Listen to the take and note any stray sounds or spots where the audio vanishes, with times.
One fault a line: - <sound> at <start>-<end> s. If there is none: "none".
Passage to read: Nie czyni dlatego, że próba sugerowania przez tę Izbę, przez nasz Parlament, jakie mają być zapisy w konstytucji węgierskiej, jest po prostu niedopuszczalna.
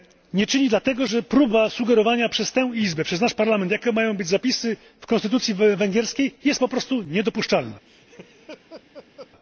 - laugh at 7.9-9.3 s